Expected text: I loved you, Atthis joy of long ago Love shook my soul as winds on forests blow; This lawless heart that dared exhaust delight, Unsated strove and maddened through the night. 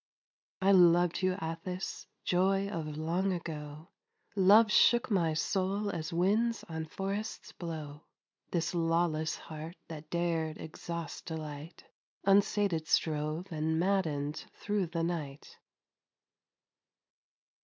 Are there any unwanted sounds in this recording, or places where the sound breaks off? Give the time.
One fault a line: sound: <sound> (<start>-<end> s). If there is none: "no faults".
no faults